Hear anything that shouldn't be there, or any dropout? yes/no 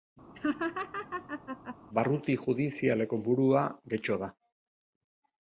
yes